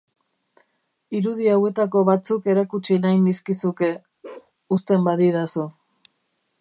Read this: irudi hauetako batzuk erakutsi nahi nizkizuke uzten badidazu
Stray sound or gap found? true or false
true